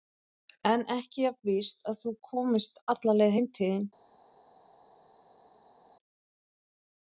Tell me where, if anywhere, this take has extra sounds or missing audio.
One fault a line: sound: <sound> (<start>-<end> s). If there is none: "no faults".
no faults